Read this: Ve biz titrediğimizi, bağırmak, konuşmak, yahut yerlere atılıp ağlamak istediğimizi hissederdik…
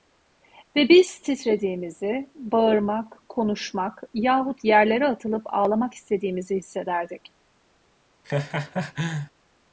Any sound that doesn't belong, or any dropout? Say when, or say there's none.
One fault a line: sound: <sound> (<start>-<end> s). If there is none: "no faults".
sound: laugh (8.2-9.3 s)